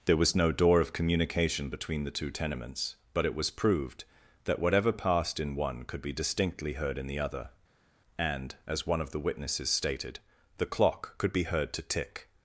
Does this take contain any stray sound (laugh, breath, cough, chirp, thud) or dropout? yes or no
no